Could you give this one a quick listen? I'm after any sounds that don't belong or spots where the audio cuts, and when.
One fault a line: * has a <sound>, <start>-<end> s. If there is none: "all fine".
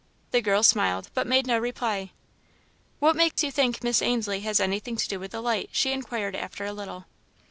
* has a dropout, 3.3-3.4 s